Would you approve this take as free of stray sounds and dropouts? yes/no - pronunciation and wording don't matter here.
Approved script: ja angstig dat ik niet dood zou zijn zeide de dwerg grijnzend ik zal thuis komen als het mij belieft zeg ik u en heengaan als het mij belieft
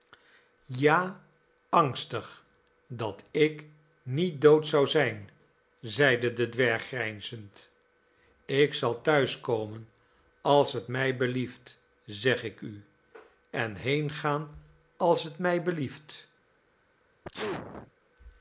no